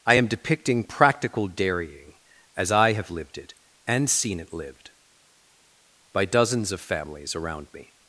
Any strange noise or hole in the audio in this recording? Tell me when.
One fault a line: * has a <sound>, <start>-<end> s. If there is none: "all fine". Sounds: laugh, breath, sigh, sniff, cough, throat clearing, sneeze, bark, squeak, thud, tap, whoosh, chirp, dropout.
all fine